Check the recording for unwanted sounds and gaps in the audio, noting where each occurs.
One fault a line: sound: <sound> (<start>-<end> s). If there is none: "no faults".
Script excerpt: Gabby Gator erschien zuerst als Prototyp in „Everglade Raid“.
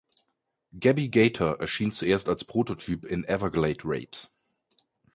no faults